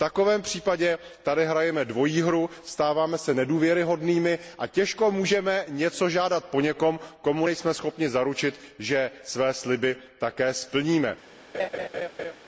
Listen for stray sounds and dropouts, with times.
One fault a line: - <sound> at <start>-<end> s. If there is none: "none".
- laugh at 11.5-12.4 s